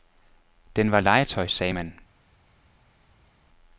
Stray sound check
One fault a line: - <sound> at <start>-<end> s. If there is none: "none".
none